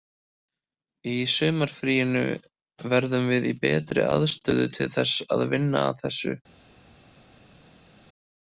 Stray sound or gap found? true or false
false